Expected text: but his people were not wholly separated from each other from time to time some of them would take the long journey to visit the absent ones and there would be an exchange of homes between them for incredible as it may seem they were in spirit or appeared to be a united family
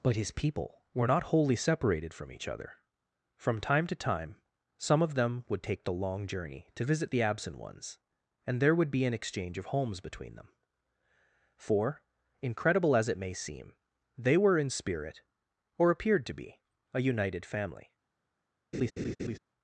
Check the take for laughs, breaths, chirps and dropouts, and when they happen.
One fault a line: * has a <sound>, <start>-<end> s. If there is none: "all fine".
* has a laugh, 18.7-19.4 s